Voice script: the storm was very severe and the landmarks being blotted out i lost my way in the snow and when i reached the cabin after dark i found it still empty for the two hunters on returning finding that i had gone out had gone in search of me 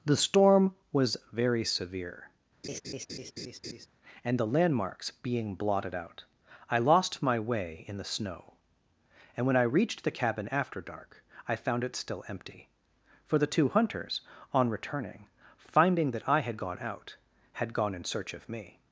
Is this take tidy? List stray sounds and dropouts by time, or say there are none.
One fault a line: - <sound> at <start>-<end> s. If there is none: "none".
- laugh at 2.6-3.9 s